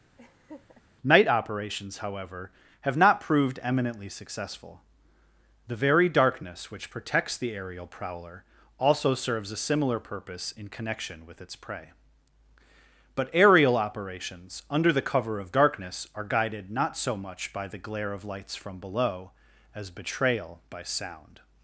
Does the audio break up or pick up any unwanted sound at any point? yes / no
yes